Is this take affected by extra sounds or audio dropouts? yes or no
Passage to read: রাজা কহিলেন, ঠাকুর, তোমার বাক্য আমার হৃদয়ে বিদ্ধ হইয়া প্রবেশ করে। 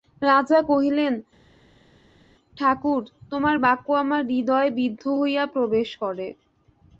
no